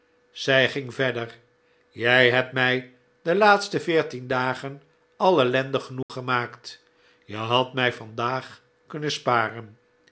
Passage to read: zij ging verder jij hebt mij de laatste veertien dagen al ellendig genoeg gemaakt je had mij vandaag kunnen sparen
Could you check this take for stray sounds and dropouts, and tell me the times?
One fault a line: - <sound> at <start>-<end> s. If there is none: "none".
- dropout at 6.0-6.1 s